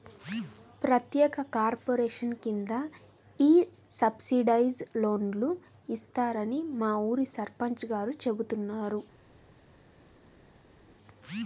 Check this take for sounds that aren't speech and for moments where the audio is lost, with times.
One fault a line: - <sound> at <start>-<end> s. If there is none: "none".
none